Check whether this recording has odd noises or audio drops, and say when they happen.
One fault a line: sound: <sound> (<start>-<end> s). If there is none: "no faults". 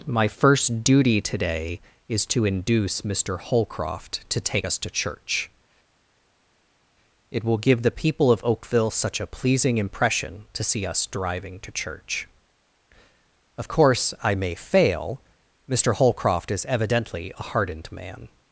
no faults